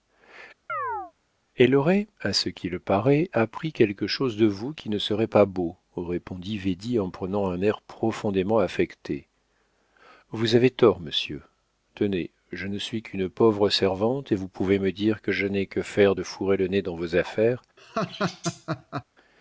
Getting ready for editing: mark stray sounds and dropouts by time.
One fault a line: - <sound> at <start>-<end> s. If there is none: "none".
- chirp at 0.7-1.1 s
- laugh at 17.8-19.0 s